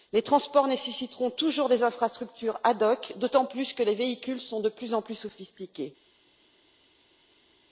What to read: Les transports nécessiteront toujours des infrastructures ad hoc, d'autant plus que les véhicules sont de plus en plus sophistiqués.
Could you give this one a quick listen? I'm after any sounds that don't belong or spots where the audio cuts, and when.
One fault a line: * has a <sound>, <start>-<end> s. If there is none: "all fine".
all fine